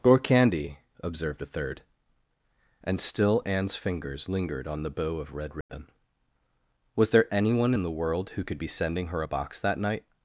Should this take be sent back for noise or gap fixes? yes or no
yes